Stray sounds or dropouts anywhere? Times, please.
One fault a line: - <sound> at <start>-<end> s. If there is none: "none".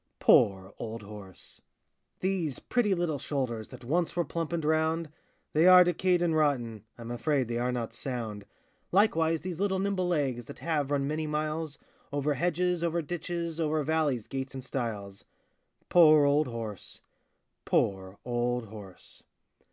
none